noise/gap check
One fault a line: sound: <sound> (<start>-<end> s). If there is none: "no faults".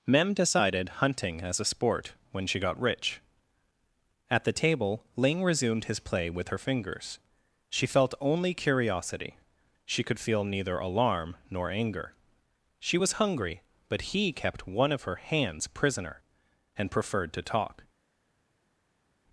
no faults